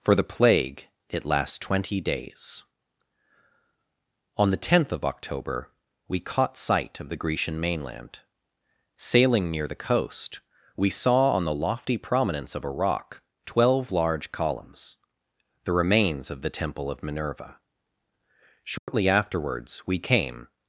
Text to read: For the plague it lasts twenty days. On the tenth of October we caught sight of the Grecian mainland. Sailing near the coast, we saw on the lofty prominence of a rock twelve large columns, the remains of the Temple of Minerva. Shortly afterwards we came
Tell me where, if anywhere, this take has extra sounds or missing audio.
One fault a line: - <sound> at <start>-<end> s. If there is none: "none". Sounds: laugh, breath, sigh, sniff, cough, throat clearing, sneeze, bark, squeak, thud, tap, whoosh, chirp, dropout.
- dropout at 18.8-18.9 s